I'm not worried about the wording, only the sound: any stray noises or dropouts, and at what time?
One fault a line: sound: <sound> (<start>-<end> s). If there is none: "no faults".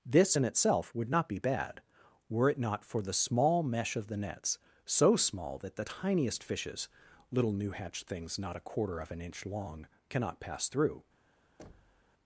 sound: thud (11.6-12.1 s)